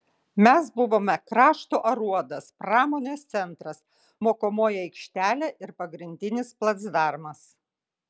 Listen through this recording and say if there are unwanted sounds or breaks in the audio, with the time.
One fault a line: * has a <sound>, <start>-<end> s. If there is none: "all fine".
all fine